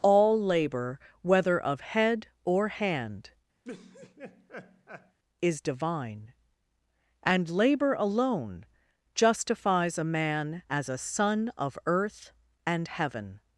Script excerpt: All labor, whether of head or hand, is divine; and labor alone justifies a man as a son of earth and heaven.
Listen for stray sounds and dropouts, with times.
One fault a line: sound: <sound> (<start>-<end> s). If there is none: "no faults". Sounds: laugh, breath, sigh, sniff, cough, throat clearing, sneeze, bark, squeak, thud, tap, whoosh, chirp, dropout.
sound: laugh (3.6-5.2 s)